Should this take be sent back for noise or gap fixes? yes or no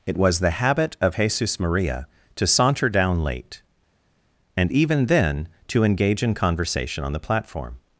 no